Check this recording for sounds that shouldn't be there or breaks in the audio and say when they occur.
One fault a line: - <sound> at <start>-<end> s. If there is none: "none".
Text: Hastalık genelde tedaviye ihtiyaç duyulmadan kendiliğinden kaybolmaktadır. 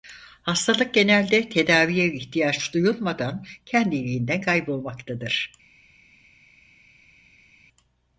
none